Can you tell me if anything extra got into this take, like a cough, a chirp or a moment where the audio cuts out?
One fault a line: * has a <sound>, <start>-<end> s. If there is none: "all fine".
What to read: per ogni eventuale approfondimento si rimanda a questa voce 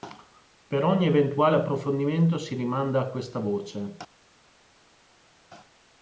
all fine